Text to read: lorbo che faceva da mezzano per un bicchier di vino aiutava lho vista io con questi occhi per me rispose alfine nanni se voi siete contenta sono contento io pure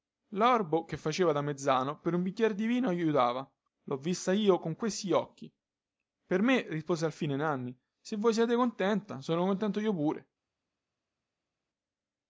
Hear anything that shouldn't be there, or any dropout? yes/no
no